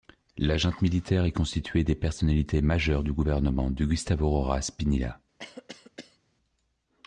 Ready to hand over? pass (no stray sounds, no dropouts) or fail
fail